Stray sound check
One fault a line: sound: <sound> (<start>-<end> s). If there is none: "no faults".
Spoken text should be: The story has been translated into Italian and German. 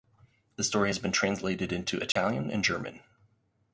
sound: dropout (2.1-2.2 s)